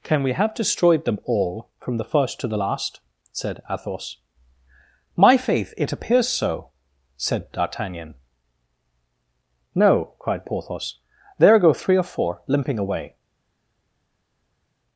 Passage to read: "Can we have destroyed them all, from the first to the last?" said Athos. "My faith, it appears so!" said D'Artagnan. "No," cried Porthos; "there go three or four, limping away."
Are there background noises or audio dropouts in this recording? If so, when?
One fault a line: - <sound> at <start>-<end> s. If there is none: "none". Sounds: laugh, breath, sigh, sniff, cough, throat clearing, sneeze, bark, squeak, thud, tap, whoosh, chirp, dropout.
none